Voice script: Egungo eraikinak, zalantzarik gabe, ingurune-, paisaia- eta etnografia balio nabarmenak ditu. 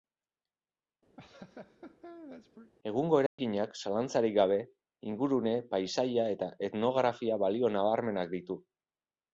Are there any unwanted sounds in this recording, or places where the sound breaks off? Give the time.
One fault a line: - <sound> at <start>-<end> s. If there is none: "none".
- laugh at 1.2-2.7 s
- dropout at 3.3-3.4 s